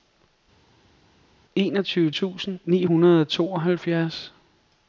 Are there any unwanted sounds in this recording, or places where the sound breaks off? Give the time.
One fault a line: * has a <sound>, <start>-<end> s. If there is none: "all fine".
all fine